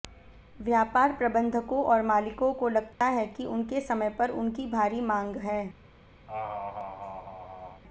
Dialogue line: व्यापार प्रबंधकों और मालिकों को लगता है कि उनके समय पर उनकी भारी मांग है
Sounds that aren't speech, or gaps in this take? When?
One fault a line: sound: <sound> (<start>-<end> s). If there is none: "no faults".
sound: dropout (2.9-3.0 s)
sound: laugh (6.3-7.8 s)